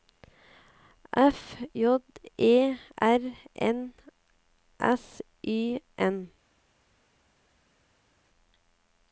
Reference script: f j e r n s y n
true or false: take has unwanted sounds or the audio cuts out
false